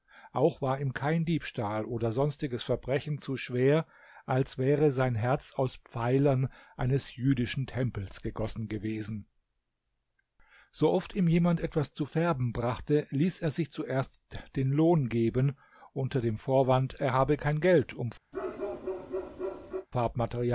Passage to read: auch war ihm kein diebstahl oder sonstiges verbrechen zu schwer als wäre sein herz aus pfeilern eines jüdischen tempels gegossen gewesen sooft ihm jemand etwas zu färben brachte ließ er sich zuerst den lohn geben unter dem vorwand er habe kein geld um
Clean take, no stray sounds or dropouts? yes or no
no